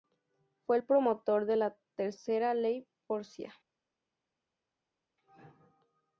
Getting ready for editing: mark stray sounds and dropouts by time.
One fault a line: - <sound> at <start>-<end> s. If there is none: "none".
none